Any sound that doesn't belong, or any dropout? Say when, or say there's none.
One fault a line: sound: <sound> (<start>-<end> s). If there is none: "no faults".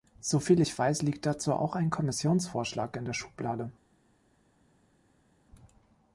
no faults